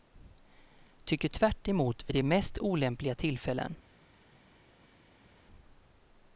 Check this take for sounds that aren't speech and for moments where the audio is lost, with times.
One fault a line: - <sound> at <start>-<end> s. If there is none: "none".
none